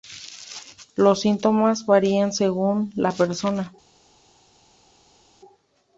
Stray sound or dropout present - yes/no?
no